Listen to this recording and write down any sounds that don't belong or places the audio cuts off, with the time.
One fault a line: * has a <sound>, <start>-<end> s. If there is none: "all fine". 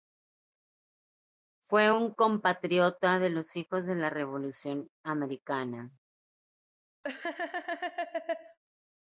* has a laugh, 7.0-8.6 s